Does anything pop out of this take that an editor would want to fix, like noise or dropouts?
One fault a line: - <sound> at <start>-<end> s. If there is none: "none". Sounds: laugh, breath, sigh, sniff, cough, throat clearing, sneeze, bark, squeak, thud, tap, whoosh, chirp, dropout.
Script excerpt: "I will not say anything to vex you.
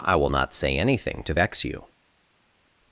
none